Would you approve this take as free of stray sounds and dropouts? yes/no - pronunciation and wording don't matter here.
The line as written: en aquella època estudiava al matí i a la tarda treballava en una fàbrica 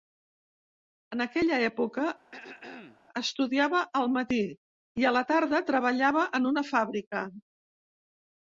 no